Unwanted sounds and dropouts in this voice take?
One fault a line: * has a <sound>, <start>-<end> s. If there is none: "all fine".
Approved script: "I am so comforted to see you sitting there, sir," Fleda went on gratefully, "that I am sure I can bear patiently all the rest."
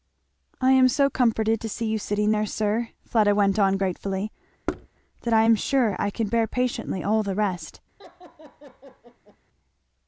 * has a thud, 4.7-4.9 s
* has a laugh, 8.0-9.4 s